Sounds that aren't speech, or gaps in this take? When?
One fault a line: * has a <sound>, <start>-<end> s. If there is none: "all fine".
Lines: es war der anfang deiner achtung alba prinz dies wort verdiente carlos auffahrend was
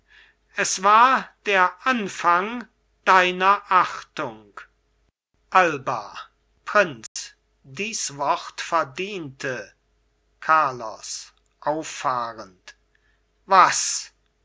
* has a dropout, 7.1-7.2 s